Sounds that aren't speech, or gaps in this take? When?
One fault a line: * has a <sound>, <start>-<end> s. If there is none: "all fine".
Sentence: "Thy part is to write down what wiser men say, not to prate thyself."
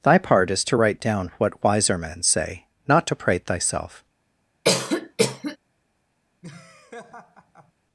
* has a cough, 4.6-5.6 s
* has a laugh, 6.4-7.7 s